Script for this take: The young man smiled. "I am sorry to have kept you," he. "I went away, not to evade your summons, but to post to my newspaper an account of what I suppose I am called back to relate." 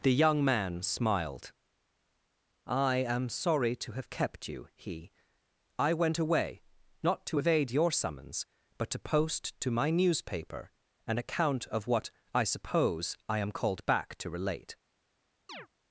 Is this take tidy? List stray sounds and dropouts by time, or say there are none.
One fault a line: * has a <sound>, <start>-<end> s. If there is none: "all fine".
* has a chirp, 15.5-15.7 s